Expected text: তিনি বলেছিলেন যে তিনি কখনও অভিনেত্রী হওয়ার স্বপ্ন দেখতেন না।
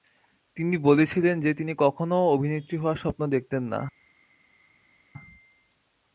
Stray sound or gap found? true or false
false